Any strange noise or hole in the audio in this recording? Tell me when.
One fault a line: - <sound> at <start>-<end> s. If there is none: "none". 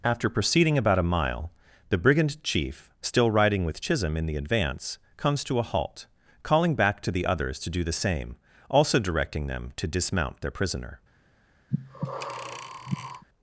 - breath at 11.7-13.2 s